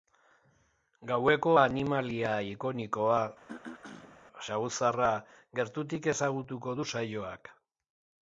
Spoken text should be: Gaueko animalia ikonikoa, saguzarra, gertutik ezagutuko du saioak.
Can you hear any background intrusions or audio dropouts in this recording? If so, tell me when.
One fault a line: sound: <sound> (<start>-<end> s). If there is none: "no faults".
sound: throat clearing (3.5-4.2 s)